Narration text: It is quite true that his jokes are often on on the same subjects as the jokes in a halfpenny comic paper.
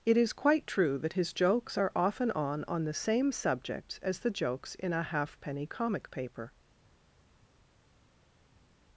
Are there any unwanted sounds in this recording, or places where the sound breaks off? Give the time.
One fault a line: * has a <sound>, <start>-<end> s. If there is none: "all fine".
all fine